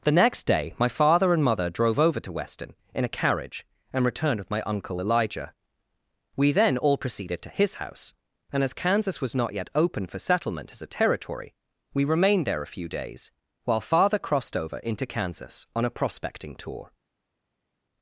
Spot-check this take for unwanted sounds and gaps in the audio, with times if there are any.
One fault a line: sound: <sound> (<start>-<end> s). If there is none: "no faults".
no faults